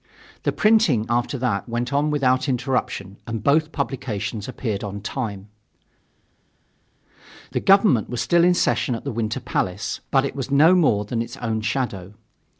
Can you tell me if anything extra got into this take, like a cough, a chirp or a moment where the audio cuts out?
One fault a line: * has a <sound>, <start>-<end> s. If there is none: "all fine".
all fine